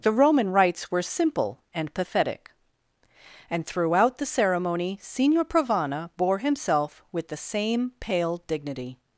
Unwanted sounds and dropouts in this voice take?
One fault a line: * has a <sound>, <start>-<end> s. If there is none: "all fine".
all fine